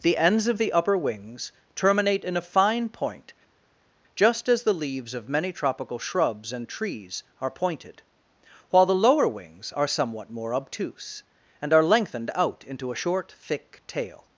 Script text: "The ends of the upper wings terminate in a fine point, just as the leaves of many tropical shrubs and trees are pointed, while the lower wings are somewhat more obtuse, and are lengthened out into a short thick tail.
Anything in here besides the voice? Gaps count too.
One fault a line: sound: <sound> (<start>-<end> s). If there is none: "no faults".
no faults